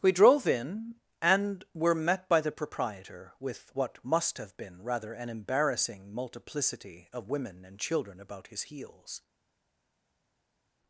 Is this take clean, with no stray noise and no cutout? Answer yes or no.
yes